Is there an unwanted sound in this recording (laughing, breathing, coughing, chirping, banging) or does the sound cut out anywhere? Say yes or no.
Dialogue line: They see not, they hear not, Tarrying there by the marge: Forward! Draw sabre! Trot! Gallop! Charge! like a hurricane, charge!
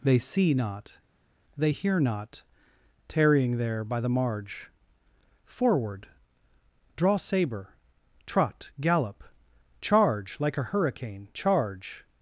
no